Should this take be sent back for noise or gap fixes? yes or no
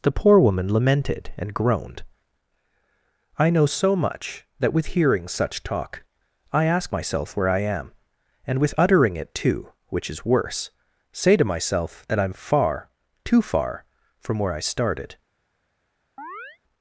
yes